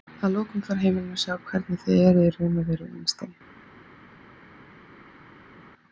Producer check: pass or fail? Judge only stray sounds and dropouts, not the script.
pass